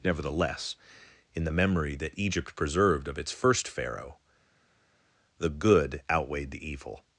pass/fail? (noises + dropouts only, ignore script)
pass